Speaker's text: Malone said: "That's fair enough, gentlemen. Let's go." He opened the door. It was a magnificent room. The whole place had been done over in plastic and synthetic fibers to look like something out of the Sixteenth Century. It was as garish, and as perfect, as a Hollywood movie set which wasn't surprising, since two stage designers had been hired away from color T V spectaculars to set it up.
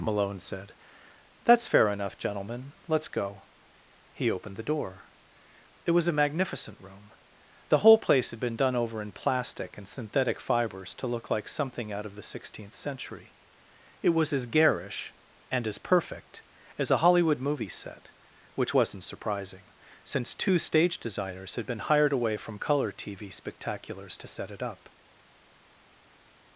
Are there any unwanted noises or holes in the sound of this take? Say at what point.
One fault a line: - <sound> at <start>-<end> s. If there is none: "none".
none